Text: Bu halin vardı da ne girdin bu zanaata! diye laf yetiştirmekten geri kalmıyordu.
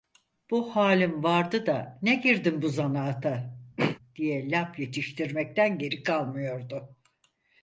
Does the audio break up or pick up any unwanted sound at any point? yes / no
yes